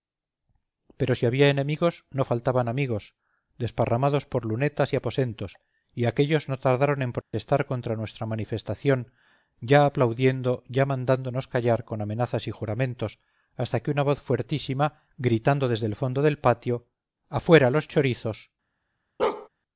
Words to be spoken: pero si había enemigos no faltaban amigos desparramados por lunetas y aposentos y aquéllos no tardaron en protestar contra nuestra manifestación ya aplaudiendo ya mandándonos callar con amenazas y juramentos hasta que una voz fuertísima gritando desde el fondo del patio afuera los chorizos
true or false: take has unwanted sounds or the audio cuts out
true